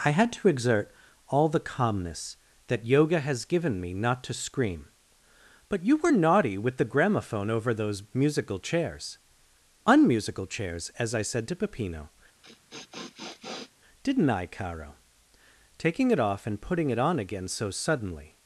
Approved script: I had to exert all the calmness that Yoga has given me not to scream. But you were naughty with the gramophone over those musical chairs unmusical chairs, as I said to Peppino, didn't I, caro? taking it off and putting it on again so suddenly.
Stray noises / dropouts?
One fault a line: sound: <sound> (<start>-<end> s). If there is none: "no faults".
sound: sniff (12.4-13.7 s)